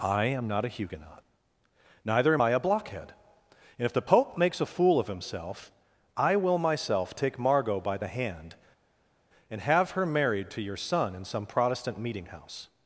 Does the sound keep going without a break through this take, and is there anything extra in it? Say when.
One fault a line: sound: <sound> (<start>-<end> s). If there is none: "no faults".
no faults